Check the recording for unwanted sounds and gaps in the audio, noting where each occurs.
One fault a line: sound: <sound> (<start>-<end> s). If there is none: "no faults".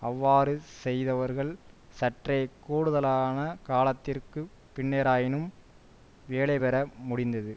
no faults